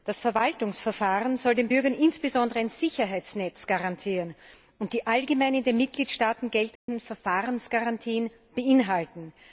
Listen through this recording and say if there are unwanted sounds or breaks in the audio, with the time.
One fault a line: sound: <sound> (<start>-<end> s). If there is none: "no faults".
sound: dropout (6.8-6.9 s)